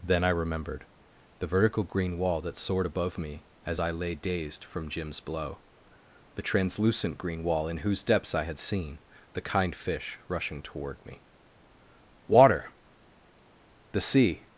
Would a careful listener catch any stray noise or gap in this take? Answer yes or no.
no